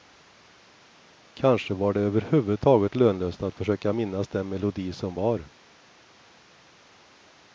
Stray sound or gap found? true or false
false